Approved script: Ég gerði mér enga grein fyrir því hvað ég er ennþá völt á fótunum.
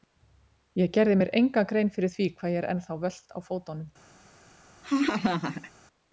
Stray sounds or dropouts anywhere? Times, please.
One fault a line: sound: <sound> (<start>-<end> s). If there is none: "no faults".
sound: laugh (4.8-5.7 s)